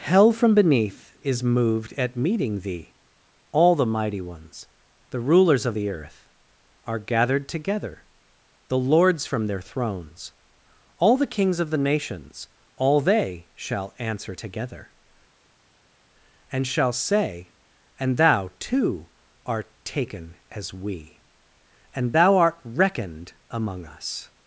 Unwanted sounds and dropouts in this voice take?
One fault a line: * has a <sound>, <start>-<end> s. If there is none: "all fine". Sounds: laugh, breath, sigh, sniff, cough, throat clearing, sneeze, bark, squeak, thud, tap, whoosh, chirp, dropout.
all fine